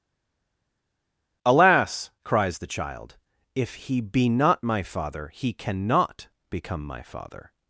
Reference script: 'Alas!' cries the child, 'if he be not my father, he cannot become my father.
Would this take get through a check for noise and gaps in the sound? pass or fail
pass